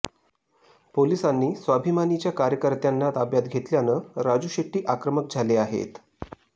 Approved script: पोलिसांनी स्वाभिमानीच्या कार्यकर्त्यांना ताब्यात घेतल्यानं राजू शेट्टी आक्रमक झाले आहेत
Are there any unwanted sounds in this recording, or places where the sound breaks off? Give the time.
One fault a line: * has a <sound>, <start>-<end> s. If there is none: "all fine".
all fine